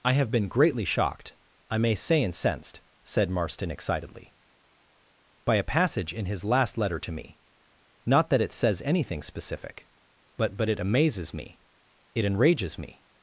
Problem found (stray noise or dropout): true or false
false